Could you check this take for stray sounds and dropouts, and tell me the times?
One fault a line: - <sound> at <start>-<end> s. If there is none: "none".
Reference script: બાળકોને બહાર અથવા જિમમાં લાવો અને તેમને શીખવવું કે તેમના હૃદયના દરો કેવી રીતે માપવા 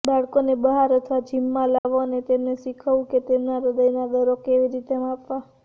- dropout at 1.8-1.9 s